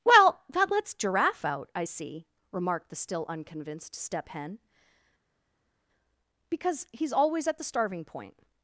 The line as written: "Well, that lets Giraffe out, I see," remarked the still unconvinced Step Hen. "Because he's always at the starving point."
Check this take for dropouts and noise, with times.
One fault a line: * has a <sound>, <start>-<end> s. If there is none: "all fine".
all fine